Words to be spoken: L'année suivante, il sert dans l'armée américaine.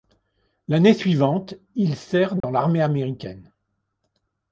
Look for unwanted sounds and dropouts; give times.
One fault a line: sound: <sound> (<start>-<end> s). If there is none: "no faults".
sound: dropout (2.4-2.4 s)